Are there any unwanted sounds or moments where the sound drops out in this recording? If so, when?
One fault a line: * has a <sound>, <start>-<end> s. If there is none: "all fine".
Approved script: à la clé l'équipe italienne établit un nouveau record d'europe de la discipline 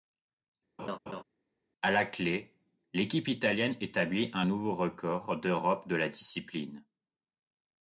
* has a laugh, 0.8-1.2 s